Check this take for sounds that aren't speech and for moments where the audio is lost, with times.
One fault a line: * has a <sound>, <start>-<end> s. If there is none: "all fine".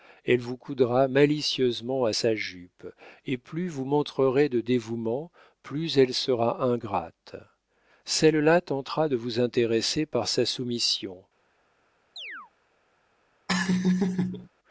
* has a chirp, 12.2-12.5 s
* has a laugh, 13.5-14.5 s